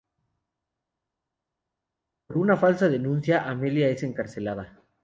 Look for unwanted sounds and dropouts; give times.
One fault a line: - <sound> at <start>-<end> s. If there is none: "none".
none